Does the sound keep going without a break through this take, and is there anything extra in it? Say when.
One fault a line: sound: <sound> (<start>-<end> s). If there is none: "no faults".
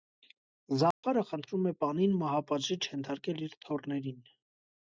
sound: dropout (0.9-1.0 s)